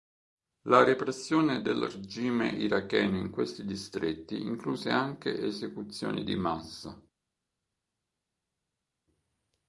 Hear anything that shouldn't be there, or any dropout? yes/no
no